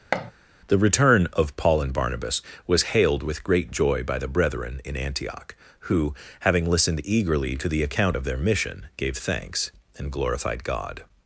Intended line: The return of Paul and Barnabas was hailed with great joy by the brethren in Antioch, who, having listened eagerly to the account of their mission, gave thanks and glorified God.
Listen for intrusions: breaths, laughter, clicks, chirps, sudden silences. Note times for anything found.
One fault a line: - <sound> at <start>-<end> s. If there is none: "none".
- thud at 0.1-0.3 s